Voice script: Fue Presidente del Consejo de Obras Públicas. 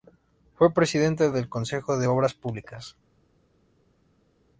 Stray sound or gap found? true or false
false